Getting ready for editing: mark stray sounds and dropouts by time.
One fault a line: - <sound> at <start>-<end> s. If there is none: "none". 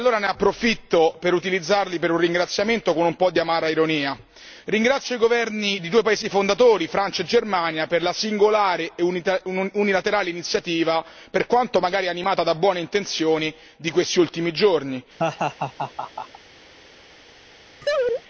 - laugh at 15.2-16.4 s
- laugh at 17.8-18.2 s